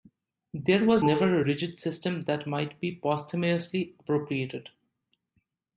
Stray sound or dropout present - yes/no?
no